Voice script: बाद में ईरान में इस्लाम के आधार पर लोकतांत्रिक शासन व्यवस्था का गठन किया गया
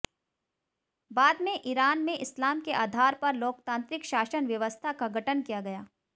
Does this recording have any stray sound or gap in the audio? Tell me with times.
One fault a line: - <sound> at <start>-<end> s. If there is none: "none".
none